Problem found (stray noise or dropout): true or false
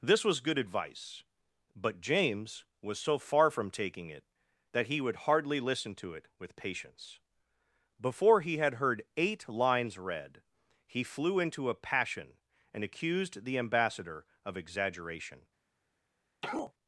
true